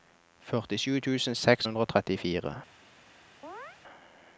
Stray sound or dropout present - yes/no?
yes